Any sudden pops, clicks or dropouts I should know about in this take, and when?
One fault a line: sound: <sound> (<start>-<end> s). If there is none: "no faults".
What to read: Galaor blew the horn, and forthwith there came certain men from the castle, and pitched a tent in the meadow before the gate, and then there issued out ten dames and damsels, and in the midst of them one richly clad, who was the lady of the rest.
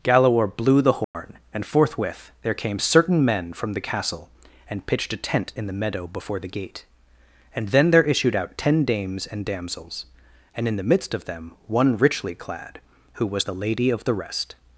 sound: dropout (1.0-1.1 s)